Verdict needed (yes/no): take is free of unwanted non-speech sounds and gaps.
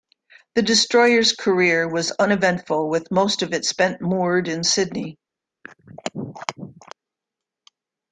no